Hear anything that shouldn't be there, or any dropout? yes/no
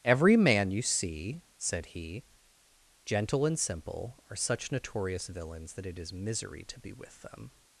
no